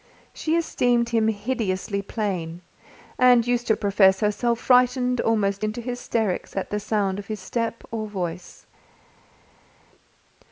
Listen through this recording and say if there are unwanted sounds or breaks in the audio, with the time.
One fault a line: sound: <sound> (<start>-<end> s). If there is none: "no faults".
no faults